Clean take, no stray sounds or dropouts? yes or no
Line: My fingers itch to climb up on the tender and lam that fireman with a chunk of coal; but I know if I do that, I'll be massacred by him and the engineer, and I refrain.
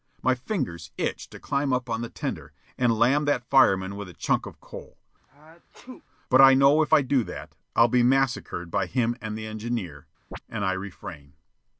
no